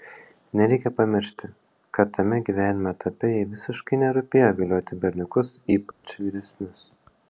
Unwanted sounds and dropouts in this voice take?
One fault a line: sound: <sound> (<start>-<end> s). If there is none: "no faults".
sound: dropout (5.9-6.0 s)